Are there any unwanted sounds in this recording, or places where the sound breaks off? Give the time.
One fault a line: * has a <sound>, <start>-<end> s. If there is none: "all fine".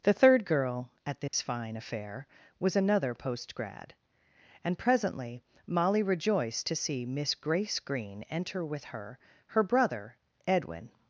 * has a dropout, 1.3-1.3 s